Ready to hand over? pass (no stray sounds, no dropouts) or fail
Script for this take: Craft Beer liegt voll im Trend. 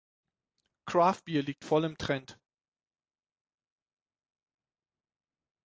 pass